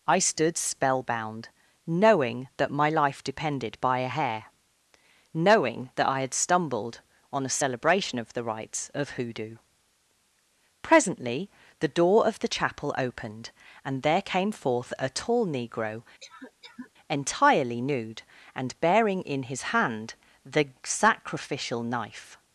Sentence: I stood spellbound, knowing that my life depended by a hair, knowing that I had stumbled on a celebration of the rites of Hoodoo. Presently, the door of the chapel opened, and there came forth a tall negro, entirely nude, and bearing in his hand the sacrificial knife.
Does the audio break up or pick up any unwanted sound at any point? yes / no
yes